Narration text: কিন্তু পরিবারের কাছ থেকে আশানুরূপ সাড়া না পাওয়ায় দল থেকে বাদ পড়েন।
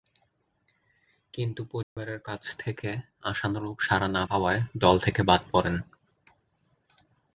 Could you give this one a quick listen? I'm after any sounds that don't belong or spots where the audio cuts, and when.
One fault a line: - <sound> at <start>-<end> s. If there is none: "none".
- dropout at 1.8-2.0 s